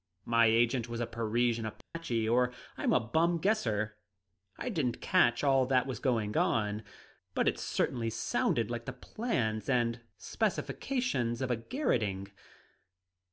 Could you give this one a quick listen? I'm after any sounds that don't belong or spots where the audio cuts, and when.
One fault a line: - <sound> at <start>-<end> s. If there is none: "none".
- dropout at 1.8-2.0 s